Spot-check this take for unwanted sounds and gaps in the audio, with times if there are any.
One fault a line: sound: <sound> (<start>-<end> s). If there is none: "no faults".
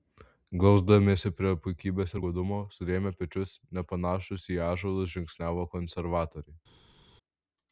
no faults